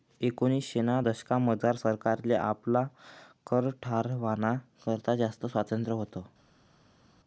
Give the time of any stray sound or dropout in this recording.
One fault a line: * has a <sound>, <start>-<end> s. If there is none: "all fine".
all fine